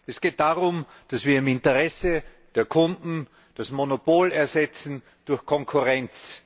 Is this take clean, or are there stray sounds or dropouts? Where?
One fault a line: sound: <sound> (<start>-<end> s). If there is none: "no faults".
no faults